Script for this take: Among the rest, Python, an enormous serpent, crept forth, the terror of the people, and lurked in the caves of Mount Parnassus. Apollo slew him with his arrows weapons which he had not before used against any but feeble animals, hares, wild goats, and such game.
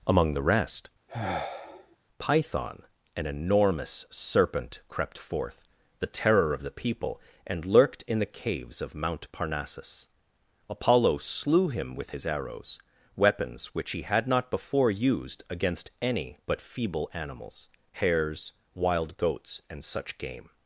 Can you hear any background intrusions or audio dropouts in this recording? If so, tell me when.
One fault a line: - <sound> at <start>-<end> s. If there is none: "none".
- sigh at 1.1-2.0 s